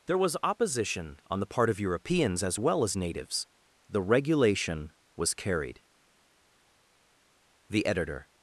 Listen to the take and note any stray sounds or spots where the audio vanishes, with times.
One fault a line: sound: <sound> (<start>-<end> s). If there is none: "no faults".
no faults